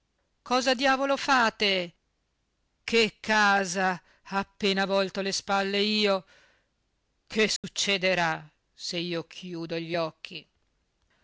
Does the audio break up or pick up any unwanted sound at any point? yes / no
yes